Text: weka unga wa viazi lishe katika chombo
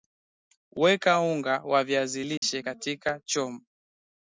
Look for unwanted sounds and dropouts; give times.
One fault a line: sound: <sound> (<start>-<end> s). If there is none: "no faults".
sound: dropout (2.4-2.4 s)